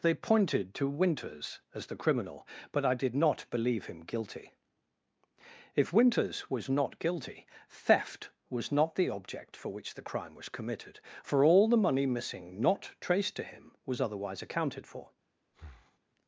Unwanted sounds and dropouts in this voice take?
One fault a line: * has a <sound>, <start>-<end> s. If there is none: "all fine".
* has a breath, 15.5-16.0 s